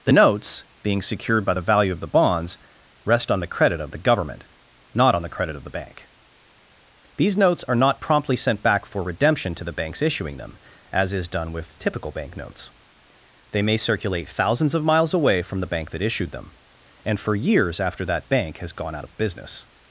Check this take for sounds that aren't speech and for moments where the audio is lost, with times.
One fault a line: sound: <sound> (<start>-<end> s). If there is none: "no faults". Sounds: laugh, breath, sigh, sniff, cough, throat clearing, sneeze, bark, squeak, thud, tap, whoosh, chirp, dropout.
no faults